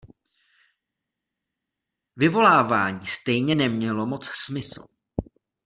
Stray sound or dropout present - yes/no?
no